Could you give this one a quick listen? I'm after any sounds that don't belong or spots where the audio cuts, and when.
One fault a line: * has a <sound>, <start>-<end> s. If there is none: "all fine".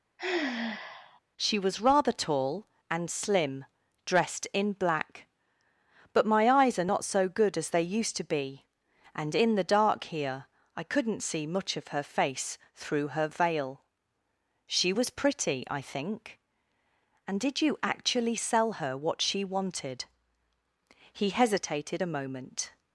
* has a sigh, 0.2-1.2 s